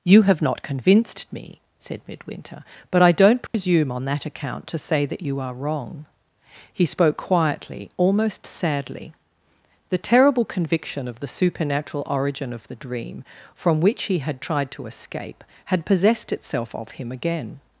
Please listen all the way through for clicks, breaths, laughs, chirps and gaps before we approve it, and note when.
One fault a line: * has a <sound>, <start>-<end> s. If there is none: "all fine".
* has a dropout, 3.5-3.5 s